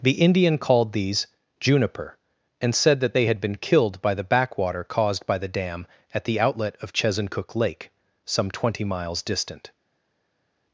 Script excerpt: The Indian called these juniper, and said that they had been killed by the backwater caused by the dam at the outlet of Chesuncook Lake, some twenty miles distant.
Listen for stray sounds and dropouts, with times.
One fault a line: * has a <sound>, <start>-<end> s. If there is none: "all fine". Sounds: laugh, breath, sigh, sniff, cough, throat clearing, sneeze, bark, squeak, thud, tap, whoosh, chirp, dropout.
all fine